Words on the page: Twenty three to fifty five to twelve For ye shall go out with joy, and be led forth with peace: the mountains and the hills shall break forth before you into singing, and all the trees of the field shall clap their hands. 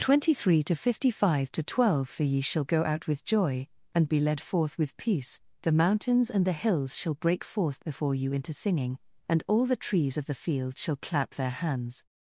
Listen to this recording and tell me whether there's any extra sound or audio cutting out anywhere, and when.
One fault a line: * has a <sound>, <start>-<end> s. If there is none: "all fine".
all fine